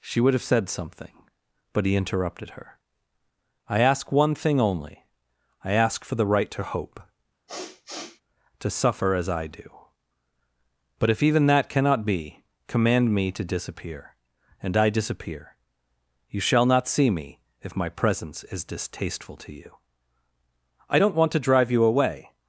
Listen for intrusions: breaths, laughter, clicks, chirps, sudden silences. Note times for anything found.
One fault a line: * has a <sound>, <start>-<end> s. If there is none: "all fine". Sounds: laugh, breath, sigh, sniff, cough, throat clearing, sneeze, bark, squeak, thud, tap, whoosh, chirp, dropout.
* has a sniff, 7.5-8.2 s